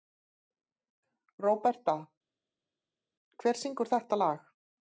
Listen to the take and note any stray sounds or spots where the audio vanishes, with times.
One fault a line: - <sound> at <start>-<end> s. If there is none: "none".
none